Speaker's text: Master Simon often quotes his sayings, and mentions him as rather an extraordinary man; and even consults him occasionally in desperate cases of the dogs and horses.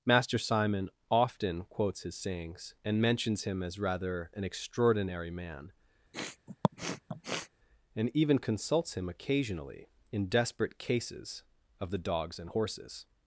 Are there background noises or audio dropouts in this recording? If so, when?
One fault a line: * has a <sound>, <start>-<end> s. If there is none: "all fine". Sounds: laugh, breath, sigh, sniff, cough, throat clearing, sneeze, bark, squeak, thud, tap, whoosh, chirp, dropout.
* has a sniff, 6.1-7.5 s